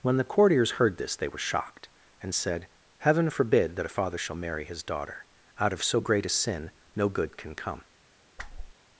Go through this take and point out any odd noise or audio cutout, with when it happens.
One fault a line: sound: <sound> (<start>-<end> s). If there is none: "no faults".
sound: whoosh (8.4-8.7 s)